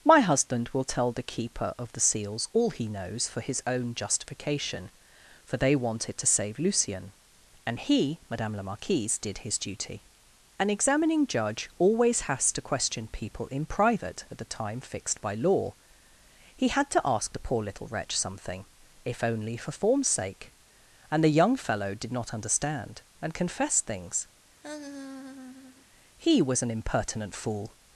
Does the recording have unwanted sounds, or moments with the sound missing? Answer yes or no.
yes